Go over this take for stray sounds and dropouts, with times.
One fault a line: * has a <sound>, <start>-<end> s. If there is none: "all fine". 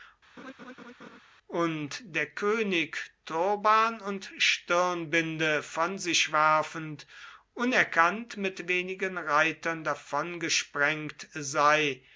* has a laugh, 0.4-1.2 s